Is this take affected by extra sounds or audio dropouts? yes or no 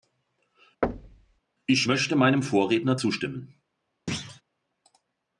yes